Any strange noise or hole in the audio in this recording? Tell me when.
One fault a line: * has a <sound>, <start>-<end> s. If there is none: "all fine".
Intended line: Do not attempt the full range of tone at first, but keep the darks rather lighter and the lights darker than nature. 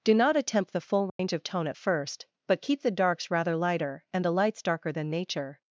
* has a dropout, 1.1-1.2 s